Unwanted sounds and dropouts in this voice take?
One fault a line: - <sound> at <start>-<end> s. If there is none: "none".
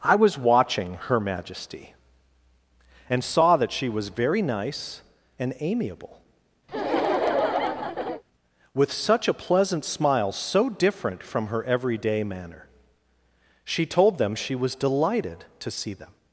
- laugh at 6.7-8.2 s